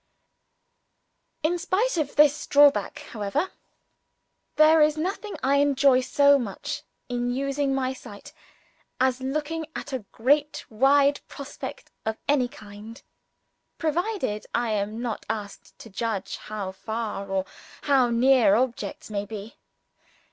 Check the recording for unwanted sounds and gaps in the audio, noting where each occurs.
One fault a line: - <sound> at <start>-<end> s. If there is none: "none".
none